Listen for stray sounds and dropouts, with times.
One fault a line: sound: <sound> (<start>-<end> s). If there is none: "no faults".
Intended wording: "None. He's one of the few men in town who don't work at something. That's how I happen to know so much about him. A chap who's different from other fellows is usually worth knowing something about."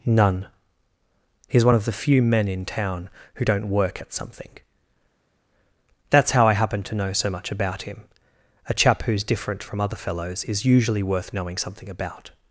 no faults